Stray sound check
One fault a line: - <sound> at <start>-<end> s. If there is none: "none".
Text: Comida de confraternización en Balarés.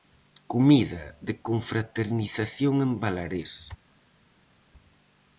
none